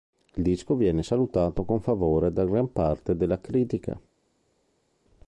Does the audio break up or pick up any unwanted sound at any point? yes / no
no